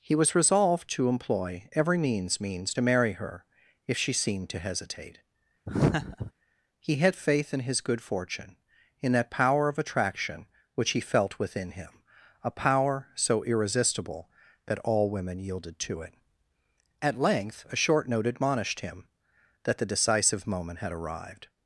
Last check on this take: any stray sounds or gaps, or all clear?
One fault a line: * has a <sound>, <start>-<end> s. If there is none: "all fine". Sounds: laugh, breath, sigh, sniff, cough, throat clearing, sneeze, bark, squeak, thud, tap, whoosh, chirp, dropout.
* has a laugh, 5.7-6.3 s